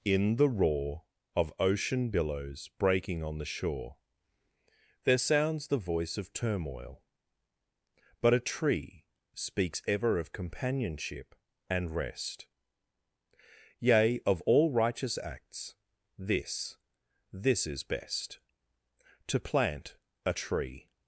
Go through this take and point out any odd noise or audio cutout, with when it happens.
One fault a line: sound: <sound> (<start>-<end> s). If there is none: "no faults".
no faults